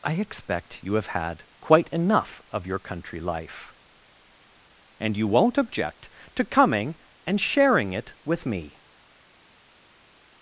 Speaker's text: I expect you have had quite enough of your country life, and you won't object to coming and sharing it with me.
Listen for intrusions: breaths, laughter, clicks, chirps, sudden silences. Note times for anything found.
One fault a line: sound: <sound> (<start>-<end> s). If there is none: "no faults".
no faults